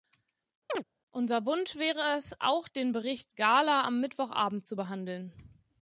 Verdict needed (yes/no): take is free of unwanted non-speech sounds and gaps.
no